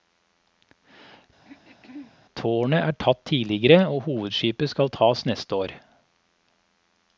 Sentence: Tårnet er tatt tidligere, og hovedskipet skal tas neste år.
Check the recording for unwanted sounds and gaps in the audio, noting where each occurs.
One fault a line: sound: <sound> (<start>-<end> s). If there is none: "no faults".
sound: throat clearing (1.4-2.2 s)